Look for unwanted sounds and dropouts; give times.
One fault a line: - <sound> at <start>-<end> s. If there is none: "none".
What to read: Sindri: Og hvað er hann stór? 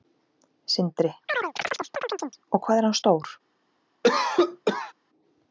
- chirp at 1.3-2.4 s
- cough at 4.0-4.9 s